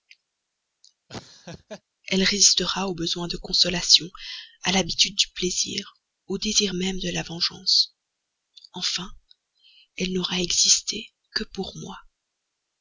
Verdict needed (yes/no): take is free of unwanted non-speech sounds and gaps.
no